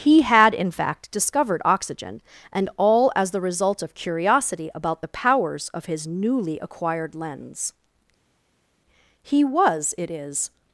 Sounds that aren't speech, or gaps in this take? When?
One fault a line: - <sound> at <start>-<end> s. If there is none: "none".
none